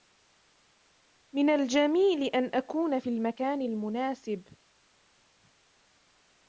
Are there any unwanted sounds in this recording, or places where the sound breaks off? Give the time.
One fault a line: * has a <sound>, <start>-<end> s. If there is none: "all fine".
all fine